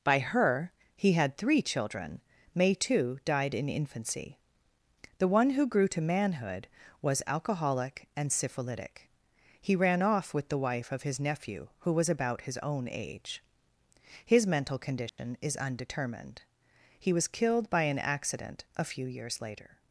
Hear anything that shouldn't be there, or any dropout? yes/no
yes